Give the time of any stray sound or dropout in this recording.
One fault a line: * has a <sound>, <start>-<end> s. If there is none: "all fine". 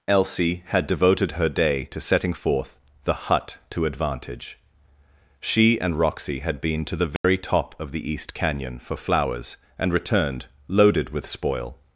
* has a dropout, 7.2-7.2 s